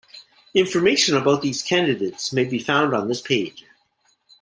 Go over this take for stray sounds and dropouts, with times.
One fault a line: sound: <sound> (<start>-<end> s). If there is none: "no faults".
no faults